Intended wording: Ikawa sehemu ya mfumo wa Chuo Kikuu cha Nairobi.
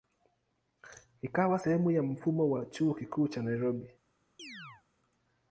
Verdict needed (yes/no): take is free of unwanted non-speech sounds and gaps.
no